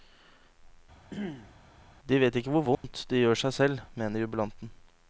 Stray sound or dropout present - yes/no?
yes